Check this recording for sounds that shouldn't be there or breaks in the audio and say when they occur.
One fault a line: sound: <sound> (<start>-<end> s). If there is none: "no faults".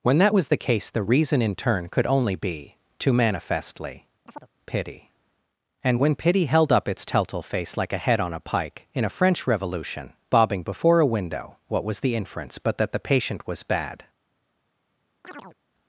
sound: chirp (4.3-4.5 s)
sound: chirp (15.2-15.6 s)